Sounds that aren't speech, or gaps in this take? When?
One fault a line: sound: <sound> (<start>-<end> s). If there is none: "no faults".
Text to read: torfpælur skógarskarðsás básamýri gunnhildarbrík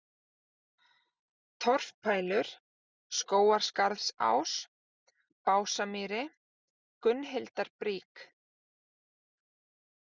no faults